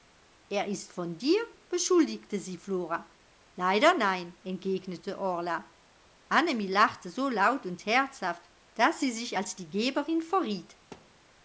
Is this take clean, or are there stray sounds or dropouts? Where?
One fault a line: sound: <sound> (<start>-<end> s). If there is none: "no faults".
sound: thud (10.9-11.3 s)